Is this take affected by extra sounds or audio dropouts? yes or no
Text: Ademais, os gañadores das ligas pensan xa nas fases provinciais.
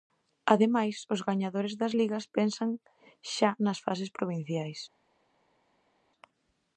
no